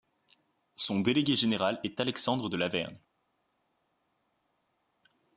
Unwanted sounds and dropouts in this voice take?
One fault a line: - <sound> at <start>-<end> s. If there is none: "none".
none